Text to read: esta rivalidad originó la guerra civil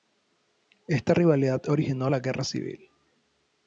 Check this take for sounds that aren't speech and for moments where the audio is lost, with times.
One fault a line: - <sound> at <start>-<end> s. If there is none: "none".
none